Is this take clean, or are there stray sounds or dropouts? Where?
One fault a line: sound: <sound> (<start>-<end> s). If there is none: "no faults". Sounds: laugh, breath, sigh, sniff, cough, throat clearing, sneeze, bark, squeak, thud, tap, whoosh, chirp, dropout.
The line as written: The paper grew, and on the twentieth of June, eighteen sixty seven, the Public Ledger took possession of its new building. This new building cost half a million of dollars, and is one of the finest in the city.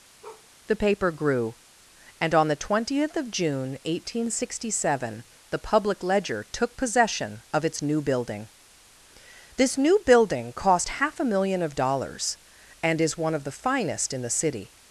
sound: bark (0.2-0.5 s)